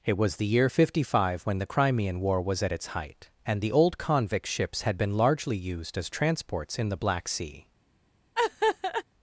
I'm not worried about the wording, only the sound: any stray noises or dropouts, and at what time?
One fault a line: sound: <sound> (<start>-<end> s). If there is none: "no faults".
sound: laugh (8.4-9.0 s)